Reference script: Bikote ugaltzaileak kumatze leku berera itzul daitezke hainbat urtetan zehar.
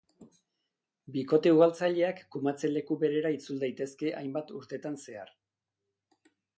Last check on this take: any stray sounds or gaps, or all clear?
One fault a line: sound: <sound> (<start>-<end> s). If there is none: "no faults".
no faults